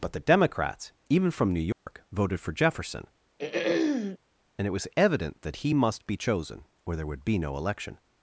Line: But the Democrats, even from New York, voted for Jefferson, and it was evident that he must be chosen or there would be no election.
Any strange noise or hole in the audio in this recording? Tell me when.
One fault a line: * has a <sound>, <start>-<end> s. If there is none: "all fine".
* has a dropout, 1.7-1.9 s
* has a throat clearing, 3.4-4.2 s